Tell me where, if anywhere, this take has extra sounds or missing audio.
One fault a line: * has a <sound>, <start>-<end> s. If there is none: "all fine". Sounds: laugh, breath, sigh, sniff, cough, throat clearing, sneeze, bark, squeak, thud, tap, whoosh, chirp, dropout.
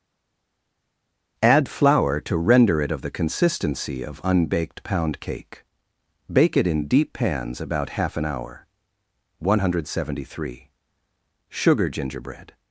all fine